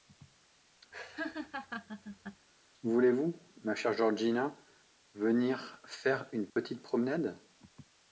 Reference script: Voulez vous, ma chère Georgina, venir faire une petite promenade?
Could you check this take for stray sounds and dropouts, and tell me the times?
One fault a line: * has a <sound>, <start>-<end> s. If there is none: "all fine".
* has a laugh, 0.9-2.5 s
* has a dropout, 6.5-6.6 s